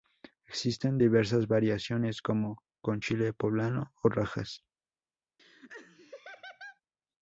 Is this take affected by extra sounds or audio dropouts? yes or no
yes